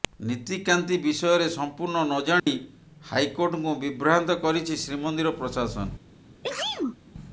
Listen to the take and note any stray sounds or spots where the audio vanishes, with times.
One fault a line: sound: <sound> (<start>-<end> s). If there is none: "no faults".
sound: dropout (2.4-2.5 s)
sound: sneeze (6.4-7.0 s)